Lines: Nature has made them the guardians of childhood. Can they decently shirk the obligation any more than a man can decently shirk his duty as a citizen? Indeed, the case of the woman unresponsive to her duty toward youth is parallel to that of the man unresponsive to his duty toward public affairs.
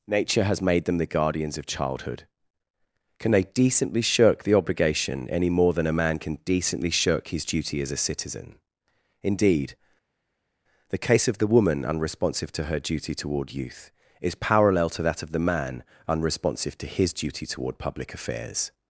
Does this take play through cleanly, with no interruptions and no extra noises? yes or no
yes